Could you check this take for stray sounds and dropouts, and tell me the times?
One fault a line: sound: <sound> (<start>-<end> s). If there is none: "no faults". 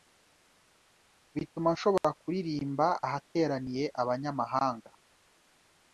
sound: dropout (2.0-2.0 s)